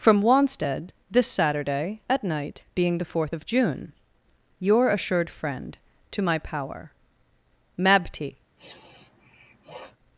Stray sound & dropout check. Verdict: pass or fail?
fail